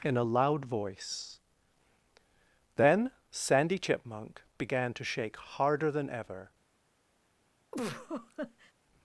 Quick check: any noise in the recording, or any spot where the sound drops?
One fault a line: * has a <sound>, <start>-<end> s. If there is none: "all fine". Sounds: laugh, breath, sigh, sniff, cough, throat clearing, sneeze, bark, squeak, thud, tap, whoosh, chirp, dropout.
* has a laugh, 7.7-8.7 s